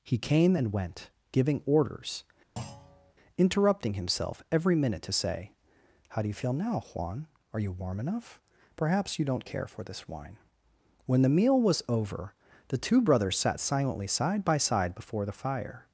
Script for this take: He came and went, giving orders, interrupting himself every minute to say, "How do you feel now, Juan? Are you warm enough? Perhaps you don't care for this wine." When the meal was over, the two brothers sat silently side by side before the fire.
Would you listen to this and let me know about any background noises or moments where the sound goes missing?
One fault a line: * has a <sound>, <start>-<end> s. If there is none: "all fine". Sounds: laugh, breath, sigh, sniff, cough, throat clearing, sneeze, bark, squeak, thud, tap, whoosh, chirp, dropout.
* has a thud, 2.6-3.1 s